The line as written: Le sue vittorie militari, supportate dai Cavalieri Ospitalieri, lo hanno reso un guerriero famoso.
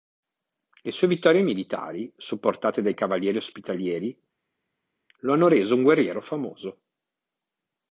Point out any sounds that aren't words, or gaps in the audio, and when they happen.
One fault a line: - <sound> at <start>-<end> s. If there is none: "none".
none